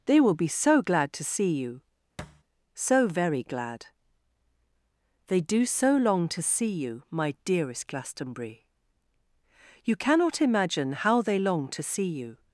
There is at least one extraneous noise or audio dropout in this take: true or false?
true